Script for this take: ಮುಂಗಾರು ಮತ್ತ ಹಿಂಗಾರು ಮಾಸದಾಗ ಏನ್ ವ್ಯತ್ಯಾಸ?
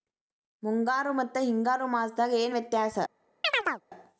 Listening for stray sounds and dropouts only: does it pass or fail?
fail